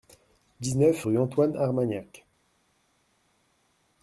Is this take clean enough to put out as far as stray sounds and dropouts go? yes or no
yes